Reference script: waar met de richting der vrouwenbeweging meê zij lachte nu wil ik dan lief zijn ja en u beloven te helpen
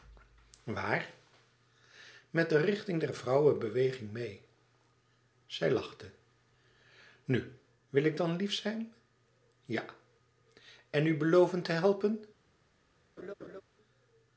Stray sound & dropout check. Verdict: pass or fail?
fail